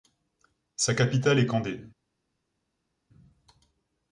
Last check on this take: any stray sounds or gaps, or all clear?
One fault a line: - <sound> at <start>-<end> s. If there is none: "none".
none